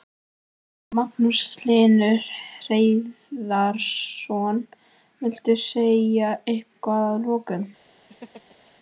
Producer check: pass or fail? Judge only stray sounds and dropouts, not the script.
fail